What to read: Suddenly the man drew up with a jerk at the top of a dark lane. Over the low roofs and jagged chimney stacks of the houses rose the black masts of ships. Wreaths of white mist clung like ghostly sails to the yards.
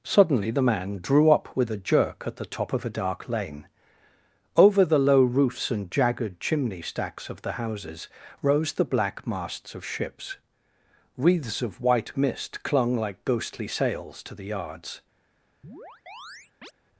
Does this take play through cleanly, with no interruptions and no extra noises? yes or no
no